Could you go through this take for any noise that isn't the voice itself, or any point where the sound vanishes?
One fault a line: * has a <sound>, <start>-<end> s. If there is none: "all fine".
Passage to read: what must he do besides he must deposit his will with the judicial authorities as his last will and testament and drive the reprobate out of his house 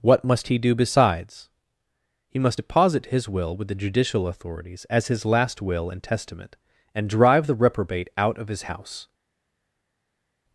all fine